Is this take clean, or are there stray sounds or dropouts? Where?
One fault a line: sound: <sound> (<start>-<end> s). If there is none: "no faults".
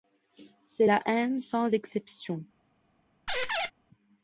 sound: squeak (3.3-3.7 s)